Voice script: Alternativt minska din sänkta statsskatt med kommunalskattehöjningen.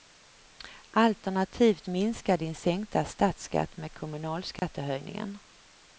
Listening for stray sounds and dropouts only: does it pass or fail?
fail